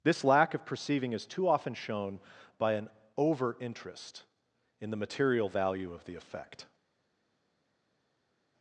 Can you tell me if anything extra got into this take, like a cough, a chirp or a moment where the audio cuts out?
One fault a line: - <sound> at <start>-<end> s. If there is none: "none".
none